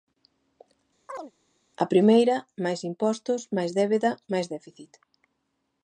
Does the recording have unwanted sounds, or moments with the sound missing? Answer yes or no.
yes